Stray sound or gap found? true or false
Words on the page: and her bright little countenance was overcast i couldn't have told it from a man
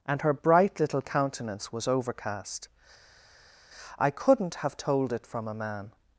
false